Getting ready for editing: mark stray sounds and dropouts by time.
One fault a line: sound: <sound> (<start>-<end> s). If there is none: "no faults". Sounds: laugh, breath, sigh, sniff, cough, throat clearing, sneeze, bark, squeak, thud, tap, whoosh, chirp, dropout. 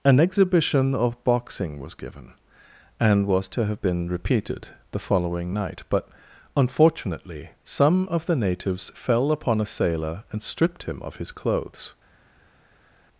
no faults